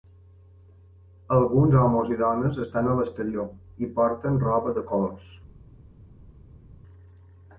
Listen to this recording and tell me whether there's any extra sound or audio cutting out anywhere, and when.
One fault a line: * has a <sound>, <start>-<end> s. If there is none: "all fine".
all fine